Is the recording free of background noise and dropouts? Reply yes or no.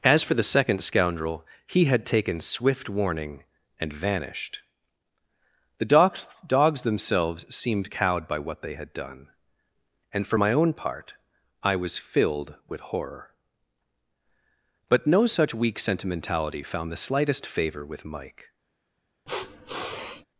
no